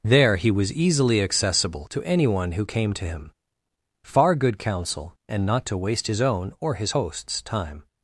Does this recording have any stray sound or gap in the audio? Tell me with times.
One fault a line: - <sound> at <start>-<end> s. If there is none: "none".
none